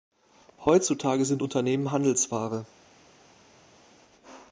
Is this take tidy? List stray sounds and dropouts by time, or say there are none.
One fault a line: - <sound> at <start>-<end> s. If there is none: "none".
none